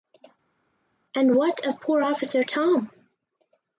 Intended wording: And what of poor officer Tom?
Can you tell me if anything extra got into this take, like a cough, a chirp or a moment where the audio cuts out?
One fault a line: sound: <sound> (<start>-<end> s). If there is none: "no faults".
no faults